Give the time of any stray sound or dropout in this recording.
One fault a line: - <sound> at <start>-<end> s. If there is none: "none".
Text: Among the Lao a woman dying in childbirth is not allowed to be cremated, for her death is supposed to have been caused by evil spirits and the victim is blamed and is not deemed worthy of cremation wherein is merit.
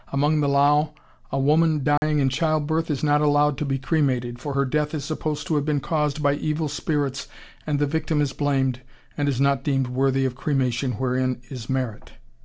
- dropout at 2.0-2.0 s